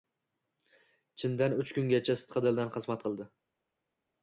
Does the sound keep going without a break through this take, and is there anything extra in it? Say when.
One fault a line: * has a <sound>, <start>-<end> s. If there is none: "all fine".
all fine